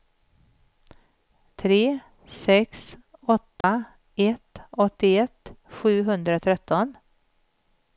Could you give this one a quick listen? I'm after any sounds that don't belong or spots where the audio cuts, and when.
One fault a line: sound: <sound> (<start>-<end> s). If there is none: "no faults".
sound: dropout (3.6-3.6 s)